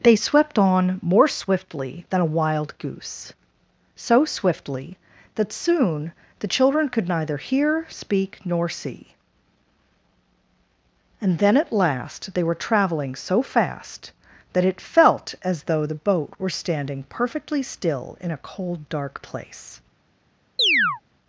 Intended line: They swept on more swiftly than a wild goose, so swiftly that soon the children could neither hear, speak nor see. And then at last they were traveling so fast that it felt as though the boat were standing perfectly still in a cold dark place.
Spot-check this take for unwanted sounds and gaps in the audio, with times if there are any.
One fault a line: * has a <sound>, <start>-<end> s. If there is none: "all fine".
* has a chirp, 20.6-21.0 s